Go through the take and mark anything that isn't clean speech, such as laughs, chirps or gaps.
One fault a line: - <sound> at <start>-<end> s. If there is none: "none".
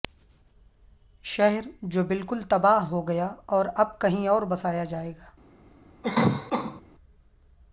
- cough at 6.0-6.8 s